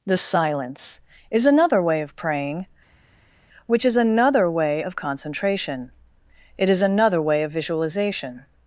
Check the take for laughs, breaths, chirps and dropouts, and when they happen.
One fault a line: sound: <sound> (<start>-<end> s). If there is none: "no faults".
no faults